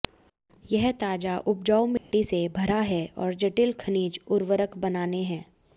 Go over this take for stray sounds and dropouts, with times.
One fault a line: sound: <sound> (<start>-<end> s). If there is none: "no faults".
sound: dropout (2.0-2.1 s)